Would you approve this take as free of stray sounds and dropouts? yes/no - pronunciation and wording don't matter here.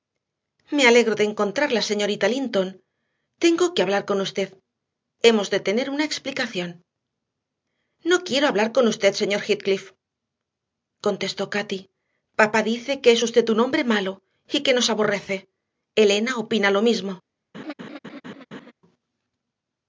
no